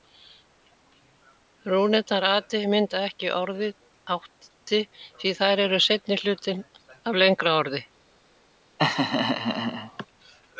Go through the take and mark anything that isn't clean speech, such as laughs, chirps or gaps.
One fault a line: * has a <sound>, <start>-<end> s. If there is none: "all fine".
* has a laugh, 8.8-10.1 s